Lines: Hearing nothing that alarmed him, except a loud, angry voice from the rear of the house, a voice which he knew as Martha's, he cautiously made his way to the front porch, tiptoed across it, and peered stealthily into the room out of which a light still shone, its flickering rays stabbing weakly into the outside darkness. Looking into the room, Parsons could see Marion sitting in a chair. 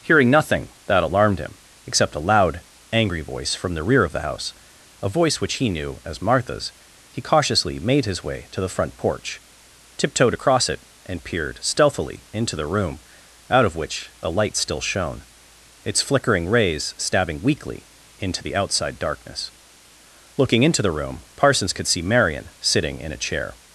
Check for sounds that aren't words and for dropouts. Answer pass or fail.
pass